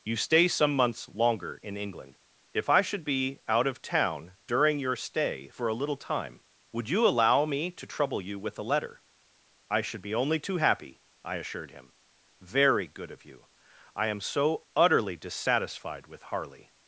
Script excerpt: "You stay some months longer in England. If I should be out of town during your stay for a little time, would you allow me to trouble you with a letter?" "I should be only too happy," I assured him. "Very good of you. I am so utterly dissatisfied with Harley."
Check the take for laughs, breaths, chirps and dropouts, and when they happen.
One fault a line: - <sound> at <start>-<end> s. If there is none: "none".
none